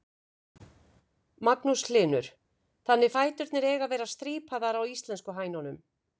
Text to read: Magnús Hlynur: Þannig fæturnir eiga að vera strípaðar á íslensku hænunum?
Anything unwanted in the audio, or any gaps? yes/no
no